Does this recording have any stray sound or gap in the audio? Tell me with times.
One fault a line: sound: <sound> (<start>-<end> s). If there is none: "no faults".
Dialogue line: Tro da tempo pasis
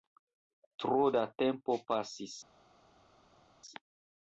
no faults